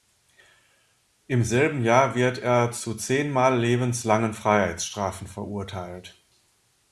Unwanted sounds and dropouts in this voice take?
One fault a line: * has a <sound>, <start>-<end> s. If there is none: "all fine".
all fine